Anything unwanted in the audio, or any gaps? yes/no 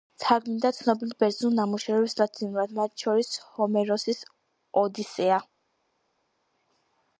no